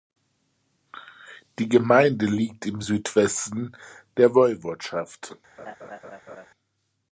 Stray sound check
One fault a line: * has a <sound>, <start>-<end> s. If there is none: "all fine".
* has a laugh, 5.6-6.5 s